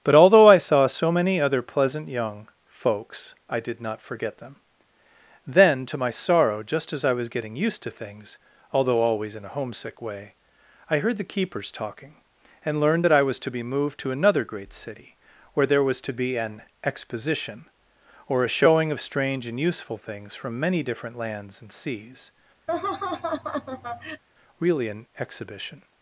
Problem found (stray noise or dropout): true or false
true